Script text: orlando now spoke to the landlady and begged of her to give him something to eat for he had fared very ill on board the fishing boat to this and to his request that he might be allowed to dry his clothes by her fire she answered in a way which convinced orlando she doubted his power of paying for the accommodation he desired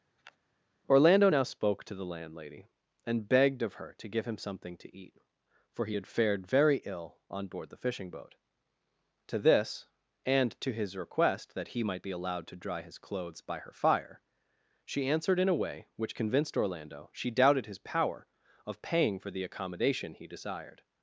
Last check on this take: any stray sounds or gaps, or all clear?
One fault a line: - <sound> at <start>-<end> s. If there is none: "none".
- sniff at 0.2-0.4 s